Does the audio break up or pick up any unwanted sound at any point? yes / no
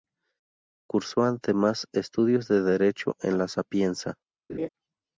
yes